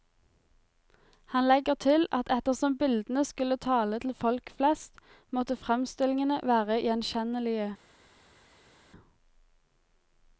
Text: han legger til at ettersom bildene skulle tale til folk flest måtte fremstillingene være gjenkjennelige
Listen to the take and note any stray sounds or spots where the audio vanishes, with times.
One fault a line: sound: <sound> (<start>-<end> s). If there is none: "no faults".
no faults